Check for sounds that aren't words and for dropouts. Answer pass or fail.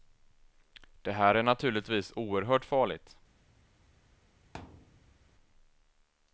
fail